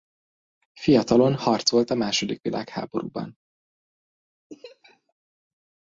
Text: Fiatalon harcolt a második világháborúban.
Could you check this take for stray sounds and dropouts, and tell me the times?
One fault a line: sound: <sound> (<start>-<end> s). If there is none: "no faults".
sound: laugh (4.5-5.1 s)